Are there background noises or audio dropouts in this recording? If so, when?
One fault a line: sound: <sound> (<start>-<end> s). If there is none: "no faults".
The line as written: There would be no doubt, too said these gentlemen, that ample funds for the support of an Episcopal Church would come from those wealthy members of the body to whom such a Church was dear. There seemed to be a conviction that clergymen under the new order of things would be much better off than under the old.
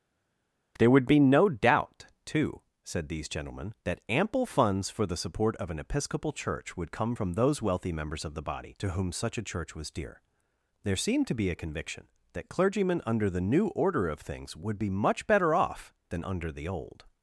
no faults